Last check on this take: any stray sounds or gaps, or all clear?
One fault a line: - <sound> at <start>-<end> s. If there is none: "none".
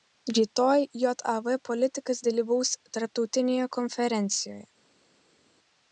none